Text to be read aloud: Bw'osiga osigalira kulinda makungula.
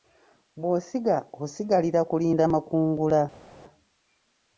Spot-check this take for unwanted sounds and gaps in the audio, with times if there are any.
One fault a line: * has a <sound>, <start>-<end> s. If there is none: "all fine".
all fine